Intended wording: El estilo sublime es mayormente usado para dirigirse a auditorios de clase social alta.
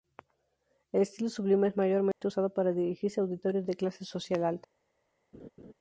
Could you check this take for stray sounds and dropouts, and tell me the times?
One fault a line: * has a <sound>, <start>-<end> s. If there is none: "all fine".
* has a dropout, 2.1-2.2 s
* has a laugh, 5.3-5.7 s